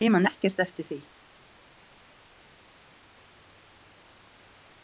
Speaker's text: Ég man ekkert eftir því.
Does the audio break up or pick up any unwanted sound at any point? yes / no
no